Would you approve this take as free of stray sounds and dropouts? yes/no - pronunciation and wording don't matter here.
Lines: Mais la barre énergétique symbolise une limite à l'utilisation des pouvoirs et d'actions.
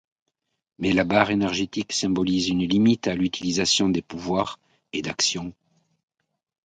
yes